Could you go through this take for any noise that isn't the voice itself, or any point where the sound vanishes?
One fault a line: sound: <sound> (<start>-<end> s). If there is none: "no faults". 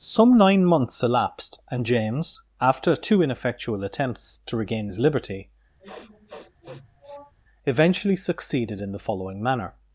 sound: sniff (5.8-7.3 s)